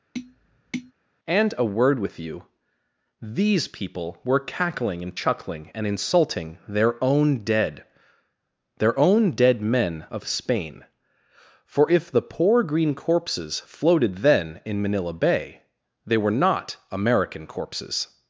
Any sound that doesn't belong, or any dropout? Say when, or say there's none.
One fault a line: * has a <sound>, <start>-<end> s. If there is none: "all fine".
* has a tap, 0.1-0.9 s